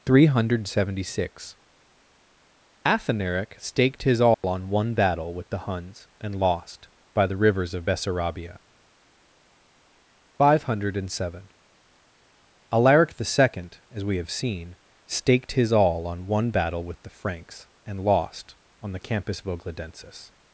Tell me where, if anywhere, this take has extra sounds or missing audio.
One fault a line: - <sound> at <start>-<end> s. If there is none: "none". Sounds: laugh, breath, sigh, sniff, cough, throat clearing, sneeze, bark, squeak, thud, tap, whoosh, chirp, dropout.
- dropout at 4.3-4.4 s